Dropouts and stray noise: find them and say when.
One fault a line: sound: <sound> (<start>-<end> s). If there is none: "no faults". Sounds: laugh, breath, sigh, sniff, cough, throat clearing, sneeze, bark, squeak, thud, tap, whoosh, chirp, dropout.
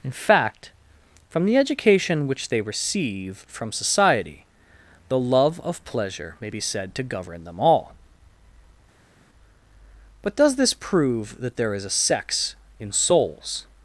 no faults